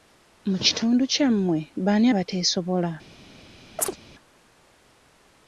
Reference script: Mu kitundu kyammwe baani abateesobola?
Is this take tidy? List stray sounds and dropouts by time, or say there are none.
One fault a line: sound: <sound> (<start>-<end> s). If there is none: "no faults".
sound: chirp (3.8-4.0 s)